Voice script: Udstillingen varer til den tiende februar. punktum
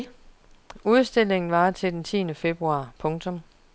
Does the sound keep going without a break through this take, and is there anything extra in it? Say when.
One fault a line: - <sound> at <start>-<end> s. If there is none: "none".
none